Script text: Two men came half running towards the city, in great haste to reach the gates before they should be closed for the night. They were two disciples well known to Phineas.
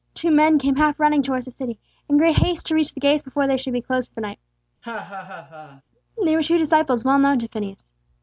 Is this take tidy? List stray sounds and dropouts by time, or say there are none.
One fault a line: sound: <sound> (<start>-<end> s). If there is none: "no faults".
sound: laugh (4.8-5.8 s)